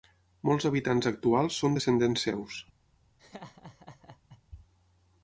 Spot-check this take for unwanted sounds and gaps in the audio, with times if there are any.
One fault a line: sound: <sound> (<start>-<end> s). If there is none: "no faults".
sound: laugh (3.2-4.4 s)